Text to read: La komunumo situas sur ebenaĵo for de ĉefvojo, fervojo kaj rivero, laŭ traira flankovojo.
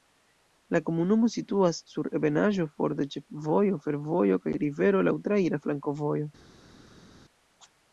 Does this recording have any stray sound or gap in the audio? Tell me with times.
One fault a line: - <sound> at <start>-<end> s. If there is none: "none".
none